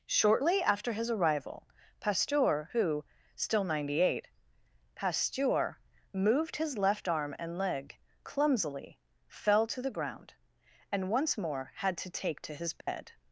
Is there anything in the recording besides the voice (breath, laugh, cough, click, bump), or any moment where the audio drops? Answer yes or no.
yes